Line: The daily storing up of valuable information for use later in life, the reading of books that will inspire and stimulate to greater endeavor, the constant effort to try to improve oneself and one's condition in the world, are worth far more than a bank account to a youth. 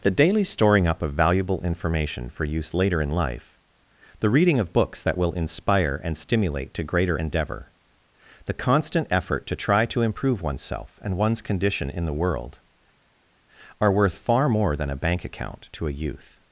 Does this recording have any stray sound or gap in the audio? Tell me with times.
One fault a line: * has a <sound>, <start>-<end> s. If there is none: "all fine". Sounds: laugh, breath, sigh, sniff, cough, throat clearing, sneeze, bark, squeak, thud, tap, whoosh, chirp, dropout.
all fine